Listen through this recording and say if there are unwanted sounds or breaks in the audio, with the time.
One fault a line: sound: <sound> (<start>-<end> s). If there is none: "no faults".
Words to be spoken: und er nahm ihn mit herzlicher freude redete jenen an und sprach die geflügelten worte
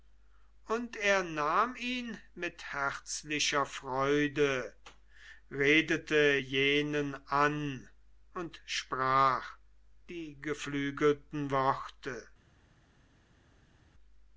no faults